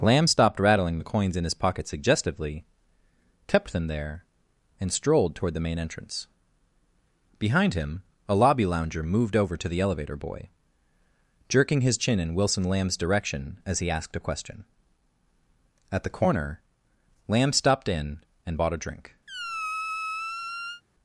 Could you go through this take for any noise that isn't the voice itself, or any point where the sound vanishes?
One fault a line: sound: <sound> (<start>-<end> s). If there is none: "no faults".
sound: squeak (19.3-20.8 s)